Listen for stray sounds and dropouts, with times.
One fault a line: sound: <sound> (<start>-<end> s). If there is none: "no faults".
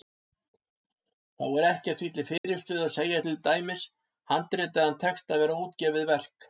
sound: dropout (2.4-2.4 s)